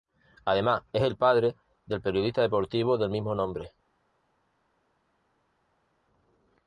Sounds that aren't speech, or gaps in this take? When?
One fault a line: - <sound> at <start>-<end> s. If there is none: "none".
none